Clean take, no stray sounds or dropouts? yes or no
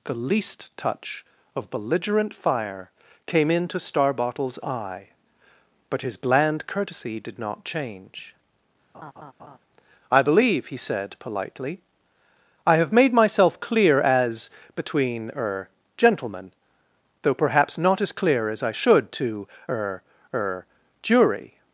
no